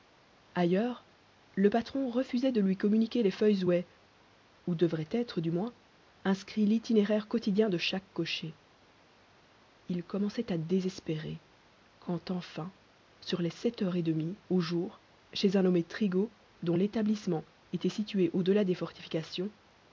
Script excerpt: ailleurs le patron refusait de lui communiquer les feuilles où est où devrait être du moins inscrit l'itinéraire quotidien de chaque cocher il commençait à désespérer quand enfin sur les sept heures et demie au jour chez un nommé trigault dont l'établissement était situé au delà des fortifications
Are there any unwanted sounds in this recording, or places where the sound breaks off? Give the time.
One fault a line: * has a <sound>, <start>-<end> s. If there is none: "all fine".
all fine